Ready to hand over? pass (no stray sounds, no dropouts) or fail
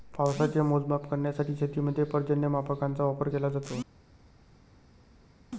pass